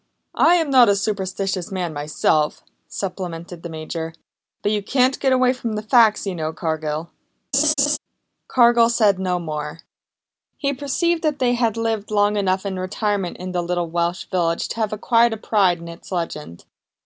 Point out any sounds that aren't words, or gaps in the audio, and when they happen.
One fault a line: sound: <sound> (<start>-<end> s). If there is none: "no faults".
sound: laugh (7.5-8.0 s)